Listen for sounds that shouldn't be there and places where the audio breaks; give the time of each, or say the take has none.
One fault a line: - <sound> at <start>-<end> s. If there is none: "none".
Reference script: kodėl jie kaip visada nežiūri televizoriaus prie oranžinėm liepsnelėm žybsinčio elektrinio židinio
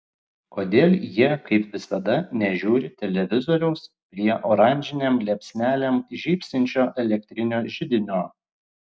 none